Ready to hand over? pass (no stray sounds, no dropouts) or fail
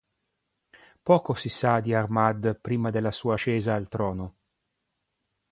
pass